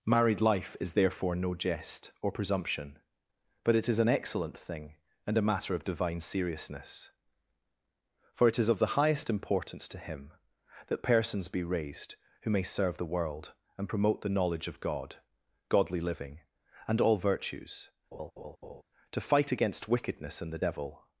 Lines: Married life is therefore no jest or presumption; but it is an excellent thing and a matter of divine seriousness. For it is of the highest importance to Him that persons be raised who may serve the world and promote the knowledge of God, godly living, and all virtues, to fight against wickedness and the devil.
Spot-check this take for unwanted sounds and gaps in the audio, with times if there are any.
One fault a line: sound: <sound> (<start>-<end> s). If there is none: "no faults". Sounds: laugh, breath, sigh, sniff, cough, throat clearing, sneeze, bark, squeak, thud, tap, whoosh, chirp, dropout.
sound: laugh (18.1-18.8 s)